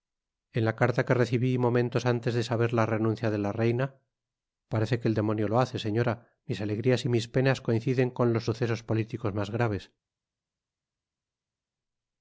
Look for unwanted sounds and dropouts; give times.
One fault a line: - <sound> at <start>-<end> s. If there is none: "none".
none